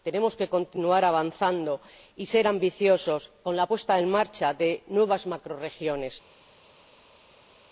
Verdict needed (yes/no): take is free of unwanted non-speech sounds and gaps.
yes